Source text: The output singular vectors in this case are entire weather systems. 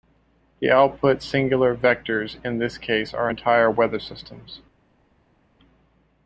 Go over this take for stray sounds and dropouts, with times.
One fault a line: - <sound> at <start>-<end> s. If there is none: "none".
none